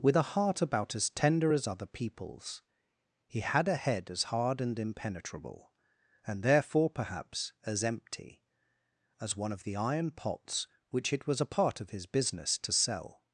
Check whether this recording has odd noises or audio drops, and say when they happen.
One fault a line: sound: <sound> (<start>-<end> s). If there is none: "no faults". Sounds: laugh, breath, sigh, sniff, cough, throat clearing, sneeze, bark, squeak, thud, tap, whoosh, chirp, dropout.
no faults